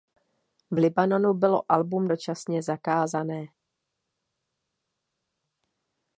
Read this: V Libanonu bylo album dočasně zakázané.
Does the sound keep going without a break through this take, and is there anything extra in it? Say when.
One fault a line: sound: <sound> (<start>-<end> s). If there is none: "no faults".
no faults